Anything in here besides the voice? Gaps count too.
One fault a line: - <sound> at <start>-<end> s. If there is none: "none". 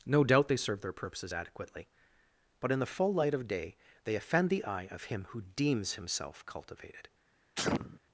- sneeze at 7.6-8.0 s